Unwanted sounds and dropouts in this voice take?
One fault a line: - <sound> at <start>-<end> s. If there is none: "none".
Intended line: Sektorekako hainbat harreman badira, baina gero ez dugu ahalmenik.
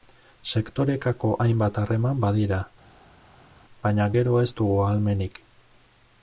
none